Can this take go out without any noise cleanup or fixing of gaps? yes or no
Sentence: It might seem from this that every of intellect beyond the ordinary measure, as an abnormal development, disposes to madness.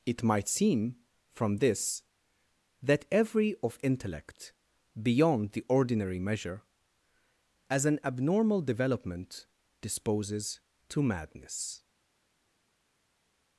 yes